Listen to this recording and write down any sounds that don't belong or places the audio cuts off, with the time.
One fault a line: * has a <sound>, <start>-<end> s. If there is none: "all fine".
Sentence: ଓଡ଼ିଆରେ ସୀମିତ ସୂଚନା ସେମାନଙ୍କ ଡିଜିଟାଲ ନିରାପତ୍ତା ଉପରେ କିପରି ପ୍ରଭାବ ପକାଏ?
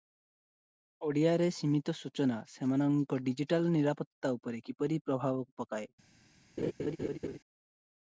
* has a laugh, 6.6-7.4 s